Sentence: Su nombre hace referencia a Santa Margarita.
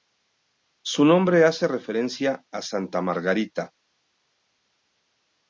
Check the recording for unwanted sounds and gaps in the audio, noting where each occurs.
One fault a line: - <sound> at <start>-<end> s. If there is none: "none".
none